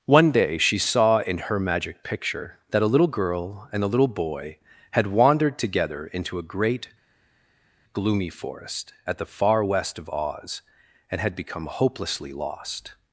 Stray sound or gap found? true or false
false